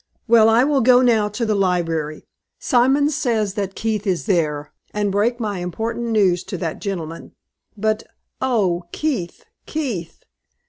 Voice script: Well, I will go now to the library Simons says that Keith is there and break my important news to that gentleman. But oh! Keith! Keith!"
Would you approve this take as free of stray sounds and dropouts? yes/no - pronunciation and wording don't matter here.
yes